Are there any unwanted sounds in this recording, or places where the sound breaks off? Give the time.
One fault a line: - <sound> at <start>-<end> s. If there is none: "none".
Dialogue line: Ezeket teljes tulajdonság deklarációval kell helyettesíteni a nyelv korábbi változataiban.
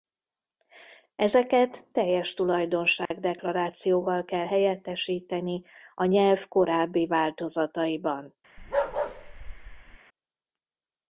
- dropout at 3.1-3.1 s
- bark at 8.6-10.0 s